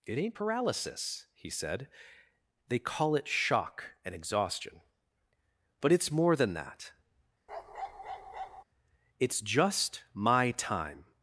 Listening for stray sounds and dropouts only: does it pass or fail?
fail